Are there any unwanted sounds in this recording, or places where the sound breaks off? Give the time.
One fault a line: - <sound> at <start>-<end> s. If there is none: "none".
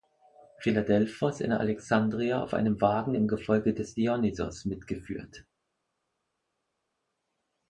none